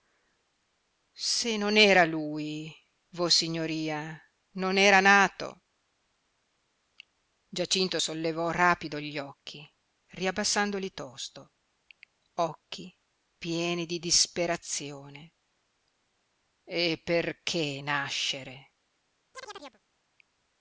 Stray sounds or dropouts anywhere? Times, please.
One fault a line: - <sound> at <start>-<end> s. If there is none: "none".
- chirp at 19.3-19.8 s